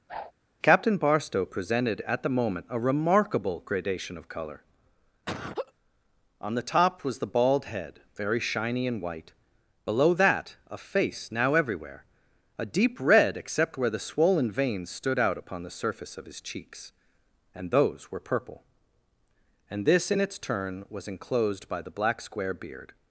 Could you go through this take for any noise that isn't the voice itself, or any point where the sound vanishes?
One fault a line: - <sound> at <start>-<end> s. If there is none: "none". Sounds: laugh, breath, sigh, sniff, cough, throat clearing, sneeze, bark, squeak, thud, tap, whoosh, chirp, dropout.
- whoosh at 0.1-0.3 s
- laugh at 5.3-5.7 s